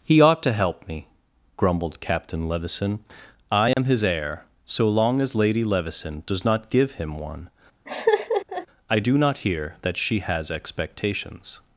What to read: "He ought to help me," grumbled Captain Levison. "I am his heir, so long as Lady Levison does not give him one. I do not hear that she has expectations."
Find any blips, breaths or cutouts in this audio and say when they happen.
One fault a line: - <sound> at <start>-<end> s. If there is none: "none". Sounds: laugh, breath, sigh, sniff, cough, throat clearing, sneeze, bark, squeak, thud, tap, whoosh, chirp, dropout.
- dropout at 3.7-3.8 s
- laugh at 7.9-8.7 s